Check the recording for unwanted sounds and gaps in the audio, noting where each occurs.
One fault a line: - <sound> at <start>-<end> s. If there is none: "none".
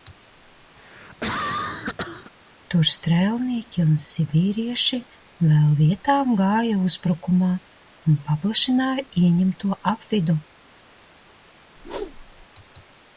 - cough at 0.8-2.3 s
- whoosh at 11.8-12.5 s